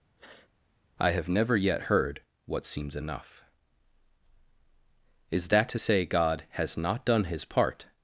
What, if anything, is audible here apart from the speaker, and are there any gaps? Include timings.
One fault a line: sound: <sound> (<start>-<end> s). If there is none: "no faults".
sound: sniff (0.2-0.5 s)